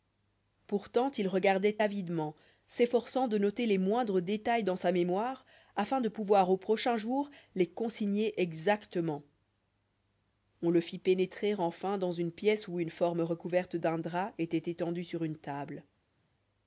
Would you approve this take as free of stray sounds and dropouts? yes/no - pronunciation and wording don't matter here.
yes